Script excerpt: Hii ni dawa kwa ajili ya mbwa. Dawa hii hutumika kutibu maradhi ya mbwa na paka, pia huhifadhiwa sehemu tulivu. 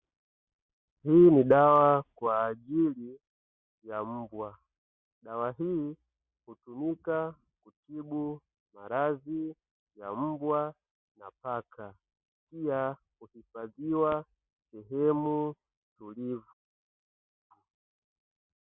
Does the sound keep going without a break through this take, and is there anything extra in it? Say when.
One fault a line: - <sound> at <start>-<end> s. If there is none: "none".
none